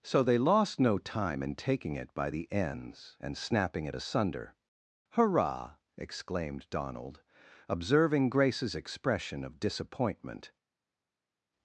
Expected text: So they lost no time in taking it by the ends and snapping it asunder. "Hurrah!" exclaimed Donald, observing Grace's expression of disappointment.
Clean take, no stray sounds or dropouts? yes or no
yes